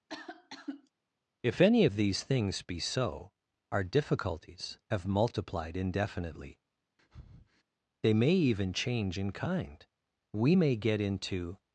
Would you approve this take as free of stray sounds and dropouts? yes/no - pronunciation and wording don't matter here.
no